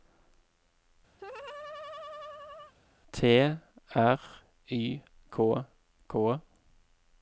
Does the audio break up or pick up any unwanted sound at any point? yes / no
yes